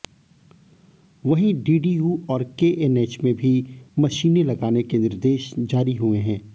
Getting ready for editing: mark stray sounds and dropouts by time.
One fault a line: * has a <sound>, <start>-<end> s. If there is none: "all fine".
all fine